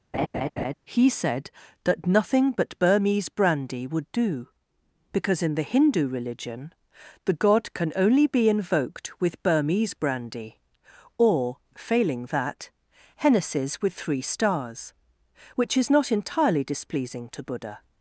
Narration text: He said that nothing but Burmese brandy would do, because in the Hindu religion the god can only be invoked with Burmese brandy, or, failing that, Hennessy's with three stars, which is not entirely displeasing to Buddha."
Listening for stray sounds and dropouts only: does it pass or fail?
fail